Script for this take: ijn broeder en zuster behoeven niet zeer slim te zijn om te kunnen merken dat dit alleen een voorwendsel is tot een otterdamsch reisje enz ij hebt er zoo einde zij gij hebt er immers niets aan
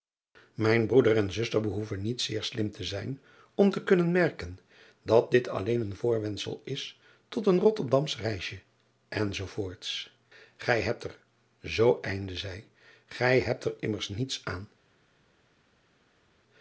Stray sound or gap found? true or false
false